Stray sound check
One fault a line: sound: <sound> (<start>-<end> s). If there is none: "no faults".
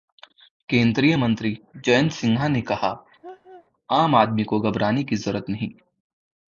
sound: laugh (3.2-3.7 s)